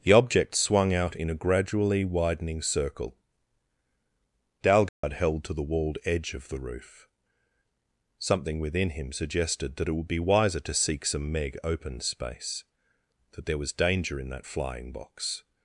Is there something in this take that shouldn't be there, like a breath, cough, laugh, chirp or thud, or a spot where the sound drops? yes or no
yes